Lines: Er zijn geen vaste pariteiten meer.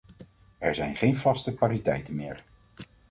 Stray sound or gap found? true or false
false